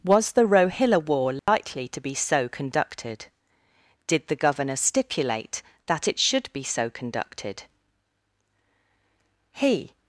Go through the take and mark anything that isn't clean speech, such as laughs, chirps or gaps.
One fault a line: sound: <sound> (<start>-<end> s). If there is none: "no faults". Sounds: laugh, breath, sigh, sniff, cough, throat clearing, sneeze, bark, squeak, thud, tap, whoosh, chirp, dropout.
sound: dropout (1.4-1.5 s)